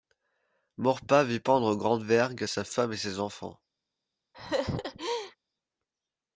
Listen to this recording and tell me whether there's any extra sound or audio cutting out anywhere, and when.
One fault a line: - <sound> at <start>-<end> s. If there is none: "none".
- laugh at 4.3-5.4 s